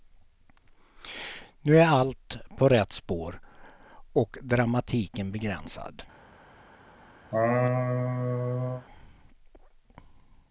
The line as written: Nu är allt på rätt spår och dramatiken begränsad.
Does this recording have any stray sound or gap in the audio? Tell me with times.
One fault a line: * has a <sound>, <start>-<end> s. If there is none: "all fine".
* has a laugh, 7.3-8.9 s